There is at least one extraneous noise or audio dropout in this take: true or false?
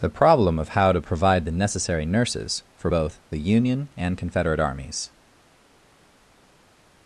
false